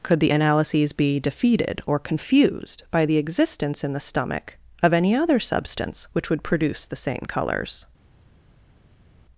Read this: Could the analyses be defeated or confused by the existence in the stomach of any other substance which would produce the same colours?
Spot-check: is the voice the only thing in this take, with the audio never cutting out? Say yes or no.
yes